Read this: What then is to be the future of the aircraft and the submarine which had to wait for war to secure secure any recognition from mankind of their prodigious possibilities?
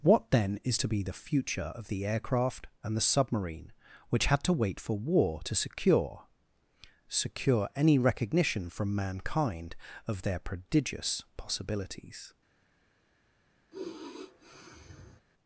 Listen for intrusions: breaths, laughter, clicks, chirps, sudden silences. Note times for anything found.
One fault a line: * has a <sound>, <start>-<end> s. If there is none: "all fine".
* has a sigh, 13.7-15.2 s